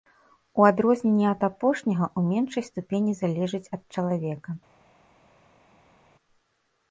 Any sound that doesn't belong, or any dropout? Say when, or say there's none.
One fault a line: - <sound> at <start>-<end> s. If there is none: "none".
none